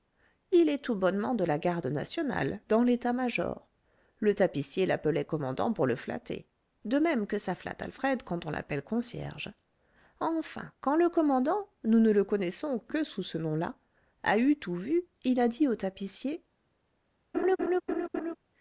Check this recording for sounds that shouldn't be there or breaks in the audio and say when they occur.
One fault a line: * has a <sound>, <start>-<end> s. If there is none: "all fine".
* has a laugh, 17.3-18.4 s